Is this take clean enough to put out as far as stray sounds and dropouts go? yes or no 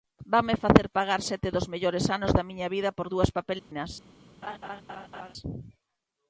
no